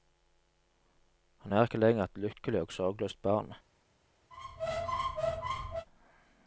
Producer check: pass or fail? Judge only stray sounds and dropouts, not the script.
fail